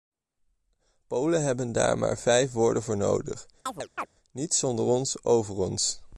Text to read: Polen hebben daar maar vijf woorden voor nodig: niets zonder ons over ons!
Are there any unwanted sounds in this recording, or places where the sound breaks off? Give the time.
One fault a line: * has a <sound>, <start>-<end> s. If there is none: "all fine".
* has a chirp, 3.7-4.1 s